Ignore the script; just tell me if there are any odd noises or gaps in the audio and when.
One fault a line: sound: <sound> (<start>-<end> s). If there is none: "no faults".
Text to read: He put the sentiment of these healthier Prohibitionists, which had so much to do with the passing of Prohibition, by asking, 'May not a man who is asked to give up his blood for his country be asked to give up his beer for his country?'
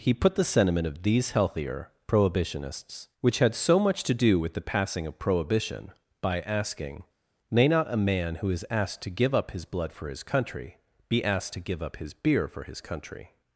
no faults